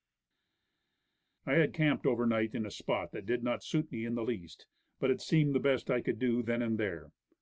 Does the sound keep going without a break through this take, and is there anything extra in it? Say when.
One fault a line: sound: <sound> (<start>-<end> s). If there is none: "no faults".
no faults